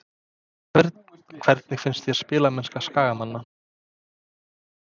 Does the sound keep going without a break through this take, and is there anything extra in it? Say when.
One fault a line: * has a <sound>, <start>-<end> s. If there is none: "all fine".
all fine